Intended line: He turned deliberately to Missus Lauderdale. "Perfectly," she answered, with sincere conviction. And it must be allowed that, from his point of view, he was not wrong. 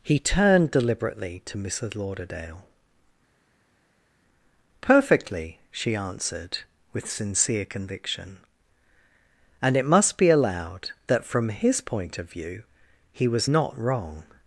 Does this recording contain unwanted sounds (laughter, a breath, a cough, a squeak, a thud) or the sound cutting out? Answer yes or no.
no